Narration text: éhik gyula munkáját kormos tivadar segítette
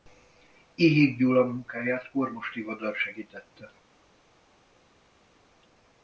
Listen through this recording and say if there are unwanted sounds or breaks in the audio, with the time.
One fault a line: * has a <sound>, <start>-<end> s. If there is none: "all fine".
all fine